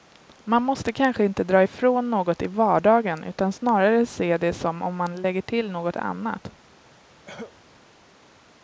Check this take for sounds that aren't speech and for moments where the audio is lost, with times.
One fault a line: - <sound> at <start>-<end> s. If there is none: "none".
- cough at 7.3-7.6 s